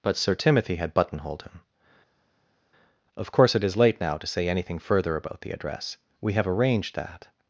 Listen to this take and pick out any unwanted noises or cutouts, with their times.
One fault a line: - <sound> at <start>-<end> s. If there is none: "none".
none